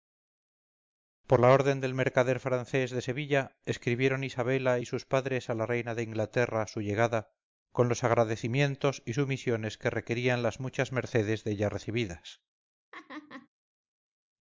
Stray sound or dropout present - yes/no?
yes